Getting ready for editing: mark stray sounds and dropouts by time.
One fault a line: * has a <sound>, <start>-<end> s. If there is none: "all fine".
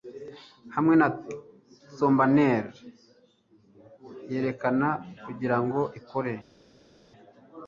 all fine